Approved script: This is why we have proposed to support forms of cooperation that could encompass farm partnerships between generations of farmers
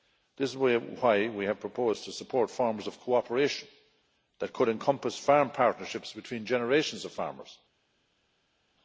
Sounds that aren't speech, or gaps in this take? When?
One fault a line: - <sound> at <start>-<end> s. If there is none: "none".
none